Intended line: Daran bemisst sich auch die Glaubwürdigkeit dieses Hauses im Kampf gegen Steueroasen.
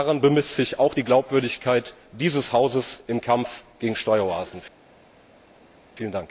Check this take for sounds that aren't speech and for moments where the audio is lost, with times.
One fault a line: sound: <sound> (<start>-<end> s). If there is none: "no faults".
no faults